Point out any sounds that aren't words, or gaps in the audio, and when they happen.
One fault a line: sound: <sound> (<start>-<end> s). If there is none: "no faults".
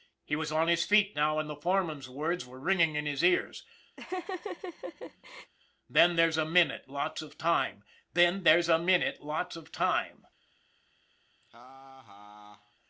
sound: laugh (4.0-5.5 s)
sound: laugh (11.4-12.7 s)